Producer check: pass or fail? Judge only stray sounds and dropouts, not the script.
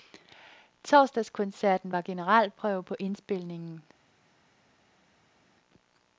pass